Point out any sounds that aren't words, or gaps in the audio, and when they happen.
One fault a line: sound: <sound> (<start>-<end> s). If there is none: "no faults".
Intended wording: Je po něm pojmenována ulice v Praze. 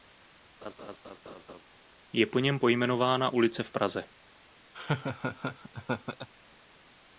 sound: laugh (0.6-1.6 s)
sound: laugh (4.7-6.3 s)